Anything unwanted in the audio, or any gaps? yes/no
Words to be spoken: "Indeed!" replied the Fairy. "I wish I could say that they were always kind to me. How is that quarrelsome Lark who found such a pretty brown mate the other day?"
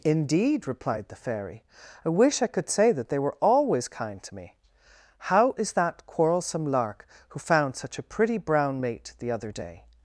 no